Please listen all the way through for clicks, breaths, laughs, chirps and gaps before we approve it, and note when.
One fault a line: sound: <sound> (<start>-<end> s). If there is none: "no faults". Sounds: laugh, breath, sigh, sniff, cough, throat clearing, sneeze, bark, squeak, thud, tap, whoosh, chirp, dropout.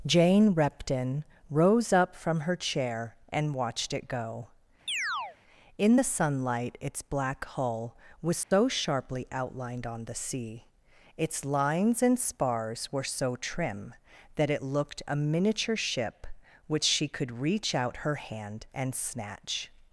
sound: chirp (4.9-5.4 s)
sound: dropout (8.4-8.5 s)